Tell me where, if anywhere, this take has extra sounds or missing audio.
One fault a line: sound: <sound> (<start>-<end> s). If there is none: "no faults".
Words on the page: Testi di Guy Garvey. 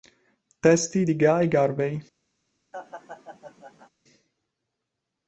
sound: laugh (2.7-3.9 s)